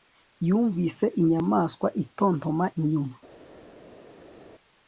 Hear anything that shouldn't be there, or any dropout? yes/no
no